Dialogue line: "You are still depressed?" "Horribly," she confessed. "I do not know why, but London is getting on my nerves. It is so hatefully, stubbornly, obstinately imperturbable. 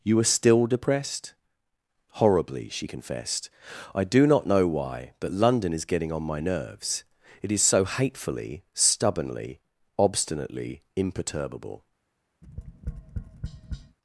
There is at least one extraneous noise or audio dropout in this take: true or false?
true